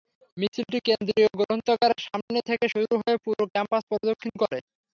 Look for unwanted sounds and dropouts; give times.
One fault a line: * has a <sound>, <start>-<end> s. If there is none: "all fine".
* has a dropout, 2.2-2.3 s